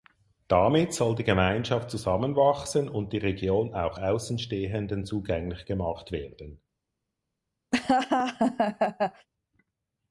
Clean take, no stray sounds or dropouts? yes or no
no